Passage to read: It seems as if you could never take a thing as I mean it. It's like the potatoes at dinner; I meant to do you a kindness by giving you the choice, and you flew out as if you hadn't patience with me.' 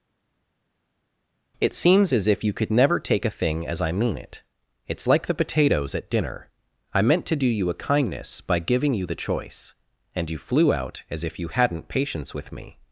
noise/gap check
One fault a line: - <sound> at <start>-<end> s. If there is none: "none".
none